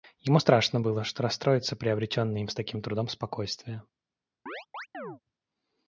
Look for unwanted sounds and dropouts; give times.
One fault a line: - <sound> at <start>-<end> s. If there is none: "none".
- chirp at 4.5-5.2 s